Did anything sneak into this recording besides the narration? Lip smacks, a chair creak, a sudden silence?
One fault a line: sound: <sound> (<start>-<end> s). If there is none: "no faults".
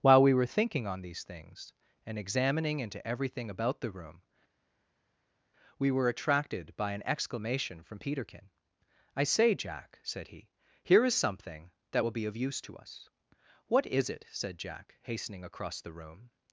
no faults